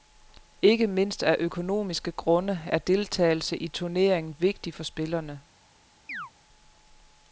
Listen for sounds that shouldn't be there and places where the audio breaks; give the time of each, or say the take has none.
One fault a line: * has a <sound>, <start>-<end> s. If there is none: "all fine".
* has a chirp, 6.1-6.3 s